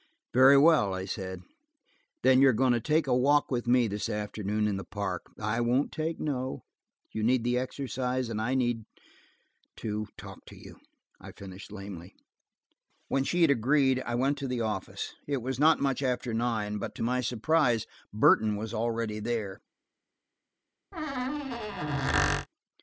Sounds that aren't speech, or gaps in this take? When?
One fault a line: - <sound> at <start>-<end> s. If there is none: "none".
- squeak at 20.9-22.5 s